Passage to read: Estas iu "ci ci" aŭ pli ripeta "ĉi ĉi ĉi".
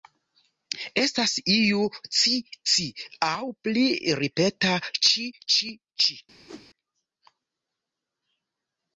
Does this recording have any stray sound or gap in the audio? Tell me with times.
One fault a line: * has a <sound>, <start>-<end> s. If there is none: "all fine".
* has a whoosh, 6.5-6.7 s